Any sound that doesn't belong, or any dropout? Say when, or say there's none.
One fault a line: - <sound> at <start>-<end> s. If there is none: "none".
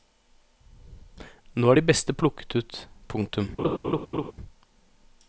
- laugh at 3.6-4.3 s